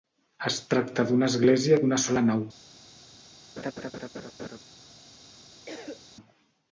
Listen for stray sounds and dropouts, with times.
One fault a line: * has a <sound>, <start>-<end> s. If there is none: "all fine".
* has a laugh, 3.6-4.6 s
* has a cough, 5.7-6.1 s